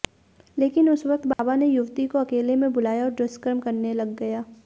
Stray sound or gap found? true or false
true